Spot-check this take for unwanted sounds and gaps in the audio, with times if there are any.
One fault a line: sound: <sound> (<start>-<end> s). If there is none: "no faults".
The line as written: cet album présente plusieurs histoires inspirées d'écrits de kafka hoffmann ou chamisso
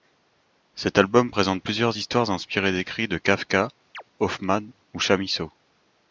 sound: chirp (3.9-4.0 s)